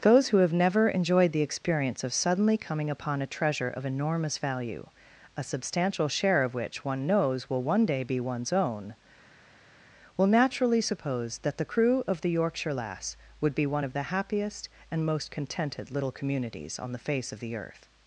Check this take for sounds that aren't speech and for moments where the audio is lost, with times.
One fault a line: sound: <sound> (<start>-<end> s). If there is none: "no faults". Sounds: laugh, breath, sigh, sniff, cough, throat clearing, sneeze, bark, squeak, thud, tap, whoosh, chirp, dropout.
no faults